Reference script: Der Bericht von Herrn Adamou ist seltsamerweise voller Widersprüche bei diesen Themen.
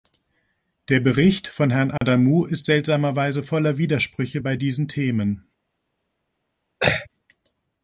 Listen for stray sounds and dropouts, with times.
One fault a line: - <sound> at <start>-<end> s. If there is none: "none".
- dropout at 2.0-2.0 s
- throat clearing at 6.8-7.1 s